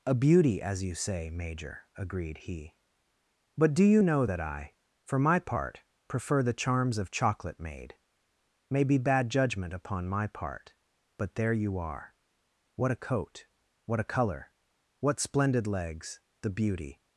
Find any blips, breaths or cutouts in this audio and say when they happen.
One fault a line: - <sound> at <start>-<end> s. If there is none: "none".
none